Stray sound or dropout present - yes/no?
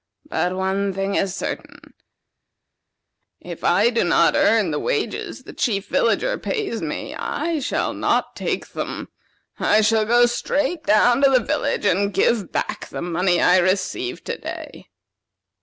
no